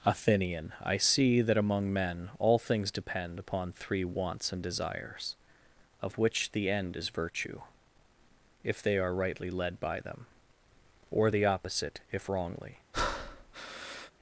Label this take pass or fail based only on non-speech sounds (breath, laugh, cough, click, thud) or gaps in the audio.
fail